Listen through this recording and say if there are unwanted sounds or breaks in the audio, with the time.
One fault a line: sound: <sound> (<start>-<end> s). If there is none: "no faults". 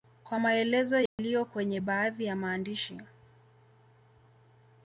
sound: dropout (1.1-1.2 s)